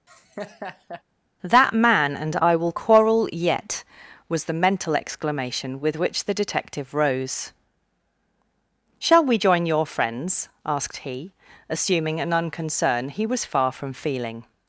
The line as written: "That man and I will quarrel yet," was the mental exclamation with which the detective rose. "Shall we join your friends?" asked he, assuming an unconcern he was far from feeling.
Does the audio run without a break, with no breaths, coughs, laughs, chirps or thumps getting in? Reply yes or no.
no